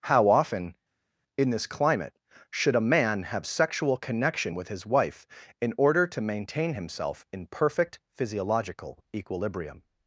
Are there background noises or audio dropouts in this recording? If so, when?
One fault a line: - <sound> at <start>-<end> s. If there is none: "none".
none